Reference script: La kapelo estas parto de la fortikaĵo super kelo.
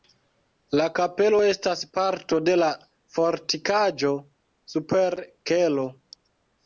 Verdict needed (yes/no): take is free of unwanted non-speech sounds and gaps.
yes